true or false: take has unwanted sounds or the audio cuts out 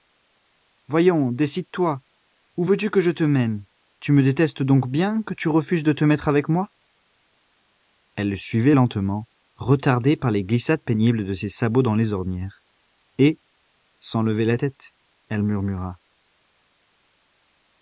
false